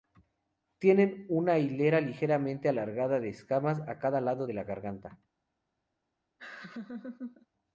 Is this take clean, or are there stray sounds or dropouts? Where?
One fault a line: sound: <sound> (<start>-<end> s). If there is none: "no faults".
sound: laugh (6.4-7.5 s)